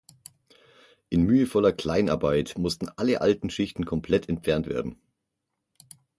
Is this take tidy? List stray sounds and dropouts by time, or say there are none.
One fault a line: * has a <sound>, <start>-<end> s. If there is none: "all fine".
all fine